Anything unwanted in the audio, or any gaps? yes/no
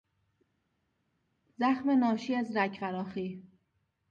no